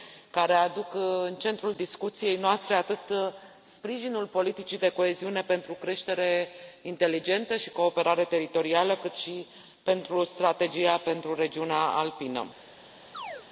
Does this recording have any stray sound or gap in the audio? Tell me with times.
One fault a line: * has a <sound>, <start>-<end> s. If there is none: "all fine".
* has a chirp, 13.1-13.5 s